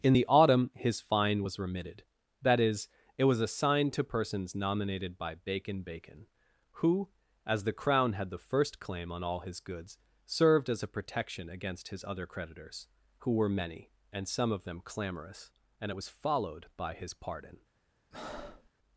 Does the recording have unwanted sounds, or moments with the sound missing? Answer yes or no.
yes